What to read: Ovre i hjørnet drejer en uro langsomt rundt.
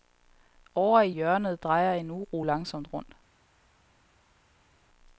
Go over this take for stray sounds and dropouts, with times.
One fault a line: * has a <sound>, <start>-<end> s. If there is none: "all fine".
all fine